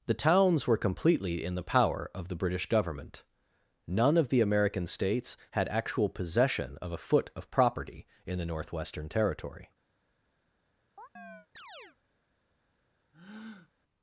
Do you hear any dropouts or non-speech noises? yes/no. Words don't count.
yes